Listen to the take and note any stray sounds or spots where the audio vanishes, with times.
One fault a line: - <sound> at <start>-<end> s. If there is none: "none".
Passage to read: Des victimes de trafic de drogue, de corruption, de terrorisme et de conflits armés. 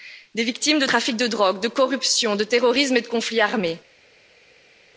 none